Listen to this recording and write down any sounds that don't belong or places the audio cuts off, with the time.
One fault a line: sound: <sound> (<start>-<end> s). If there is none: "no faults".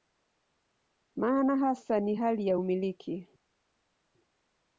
no faults